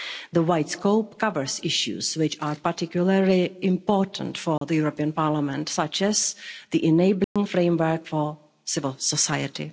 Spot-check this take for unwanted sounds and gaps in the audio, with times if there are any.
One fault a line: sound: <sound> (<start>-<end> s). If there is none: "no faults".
sound: dropout (4.6-4.6 s)
sound: dropout (7.2-7.4 s)